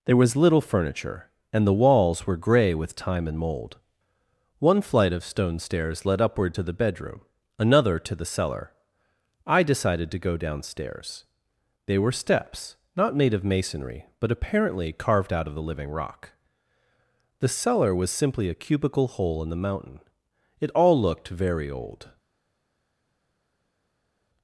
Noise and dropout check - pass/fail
pass